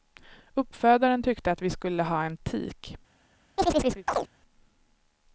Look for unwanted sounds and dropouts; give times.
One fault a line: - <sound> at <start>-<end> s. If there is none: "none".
- chirp at 3.6-4.3 s